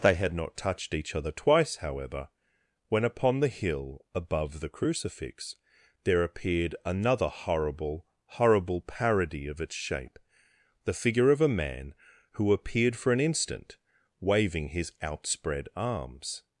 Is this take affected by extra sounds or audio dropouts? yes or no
no